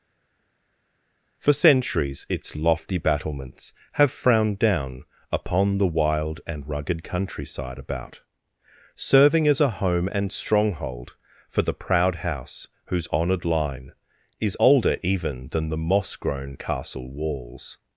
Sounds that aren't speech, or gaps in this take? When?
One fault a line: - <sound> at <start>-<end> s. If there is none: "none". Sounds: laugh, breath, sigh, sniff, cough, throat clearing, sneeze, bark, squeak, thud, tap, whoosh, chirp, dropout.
none